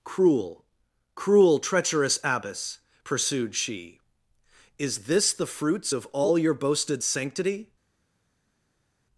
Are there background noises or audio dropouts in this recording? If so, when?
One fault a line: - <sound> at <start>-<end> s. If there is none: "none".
none